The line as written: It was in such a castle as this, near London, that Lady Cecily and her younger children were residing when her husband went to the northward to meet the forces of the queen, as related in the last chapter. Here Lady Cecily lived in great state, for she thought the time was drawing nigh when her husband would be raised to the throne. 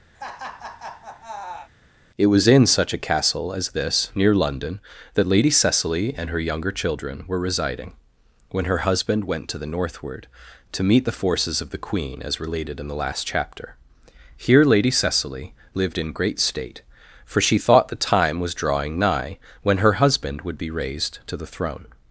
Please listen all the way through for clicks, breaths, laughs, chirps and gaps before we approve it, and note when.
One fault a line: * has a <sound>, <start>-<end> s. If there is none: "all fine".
* has a laugh, 0.1-1.7 s